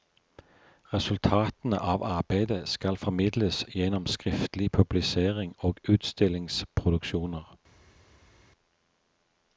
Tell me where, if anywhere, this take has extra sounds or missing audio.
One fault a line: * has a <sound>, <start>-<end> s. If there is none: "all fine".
all fine